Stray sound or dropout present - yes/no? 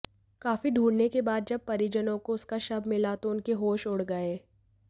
no